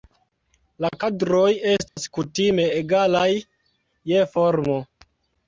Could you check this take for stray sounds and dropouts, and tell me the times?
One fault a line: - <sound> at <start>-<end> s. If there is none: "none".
- dropout at 1.9-2.0 s